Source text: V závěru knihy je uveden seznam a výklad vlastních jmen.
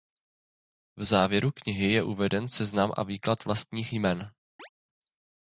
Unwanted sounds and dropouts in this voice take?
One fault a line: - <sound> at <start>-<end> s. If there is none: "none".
- chirp at 4.6-4.7 s